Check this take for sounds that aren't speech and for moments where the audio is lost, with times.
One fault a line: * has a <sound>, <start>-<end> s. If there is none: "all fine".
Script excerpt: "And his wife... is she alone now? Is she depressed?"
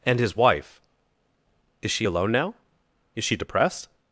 all fine